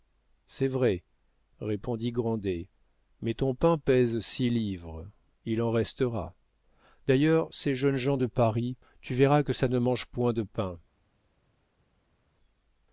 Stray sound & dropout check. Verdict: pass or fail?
pass